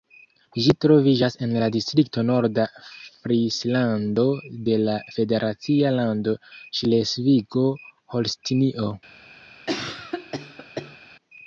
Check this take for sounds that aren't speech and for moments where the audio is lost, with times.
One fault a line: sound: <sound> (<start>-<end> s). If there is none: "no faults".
sound: cough (9.7-11.0 s)